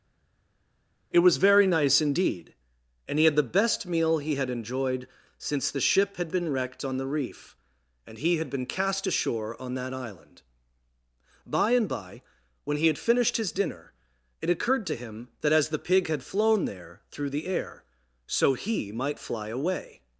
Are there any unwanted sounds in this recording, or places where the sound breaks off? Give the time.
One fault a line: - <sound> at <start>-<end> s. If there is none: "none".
none